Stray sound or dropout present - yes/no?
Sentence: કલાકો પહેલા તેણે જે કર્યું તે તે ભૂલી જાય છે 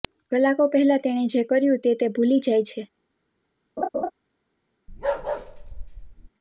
yes